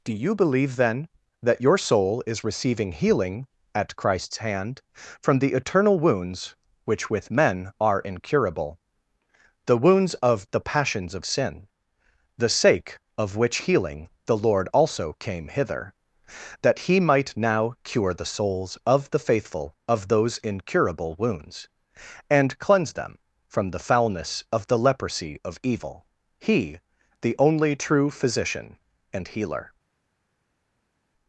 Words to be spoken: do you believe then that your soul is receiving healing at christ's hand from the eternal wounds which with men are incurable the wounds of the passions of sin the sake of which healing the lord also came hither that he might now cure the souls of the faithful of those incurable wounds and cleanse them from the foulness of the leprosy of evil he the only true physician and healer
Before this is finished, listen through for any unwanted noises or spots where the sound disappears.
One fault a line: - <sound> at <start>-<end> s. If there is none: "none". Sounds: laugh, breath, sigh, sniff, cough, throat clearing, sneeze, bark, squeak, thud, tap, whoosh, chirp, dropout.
none